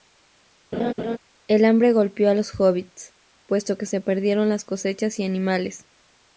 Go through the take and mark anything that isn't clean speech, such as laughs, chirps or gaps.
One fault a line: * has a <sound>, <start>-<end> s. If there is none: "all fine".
* has a laugh, 0.7-1.2 s